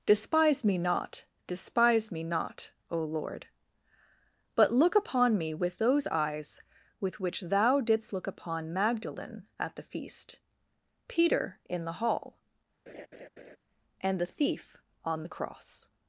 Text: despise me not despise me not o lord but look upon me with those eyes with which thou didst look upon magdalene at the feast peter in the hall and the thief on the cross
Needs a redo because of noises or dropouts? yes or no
yes